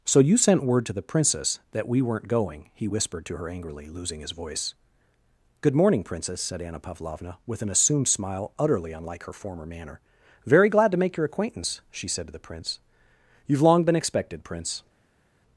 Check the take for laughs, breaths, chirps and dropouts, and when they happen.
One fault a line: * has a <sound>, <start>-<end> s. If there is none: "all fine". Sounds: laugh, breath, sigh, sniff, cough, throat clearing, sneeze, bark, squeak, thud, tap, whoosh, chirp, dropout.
all fine